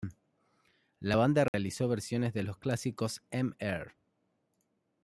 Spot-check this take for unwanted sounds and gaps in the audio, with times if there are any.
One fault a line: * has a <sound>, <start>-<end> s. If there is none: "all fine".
* has a dropout, 1.5-1.5 s